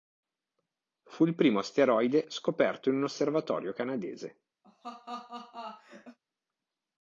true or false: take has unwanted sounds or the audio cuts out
true